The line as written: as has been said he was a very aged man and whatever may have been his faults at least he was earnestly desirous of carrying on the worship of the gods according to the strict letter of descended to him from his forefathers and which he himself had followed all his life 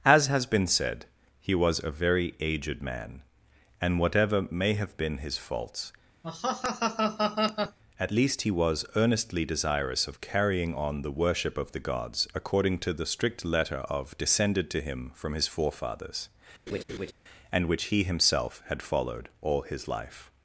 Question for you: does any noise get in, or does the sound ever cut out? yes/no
yes